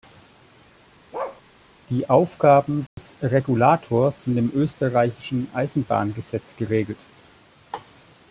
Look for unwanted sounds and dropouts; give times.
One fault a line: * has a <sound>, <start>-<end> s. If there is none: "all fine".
* has a bark, 1.1-1.4 s
* has a dropout, 2.9-3.0 s